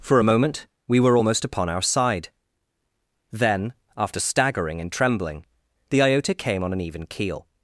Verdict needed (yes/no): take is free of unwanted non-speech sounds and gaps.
yes